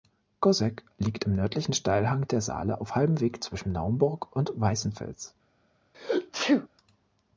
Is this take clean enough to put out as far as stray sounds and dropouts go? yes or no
no